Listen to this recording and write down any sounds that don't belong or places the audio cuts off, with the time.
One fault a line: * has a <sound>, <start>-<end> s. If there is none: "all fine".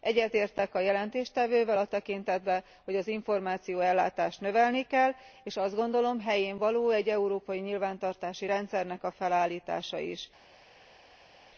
all fine